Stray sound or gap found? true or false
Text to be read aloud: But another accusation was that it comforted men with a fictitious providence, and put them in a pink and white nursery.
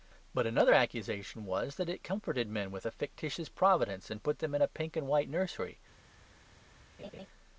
true